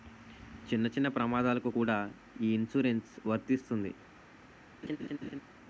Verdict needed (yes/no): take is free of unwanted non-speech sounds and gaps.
no